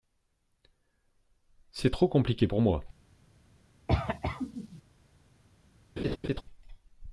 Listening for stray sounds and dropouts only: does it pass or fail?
fail